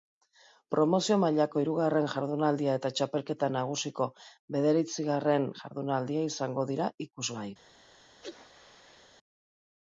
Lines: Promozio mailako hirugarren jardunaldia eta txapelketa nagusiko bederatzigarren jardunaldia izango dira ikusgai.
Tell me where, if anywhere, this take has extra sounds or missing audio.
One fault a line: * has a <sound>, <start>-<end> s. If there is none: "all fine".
* has a sneeze, 8.2-9.1 s